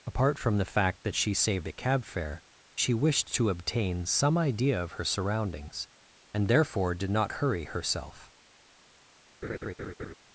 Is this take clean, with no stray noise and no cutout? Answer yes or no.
no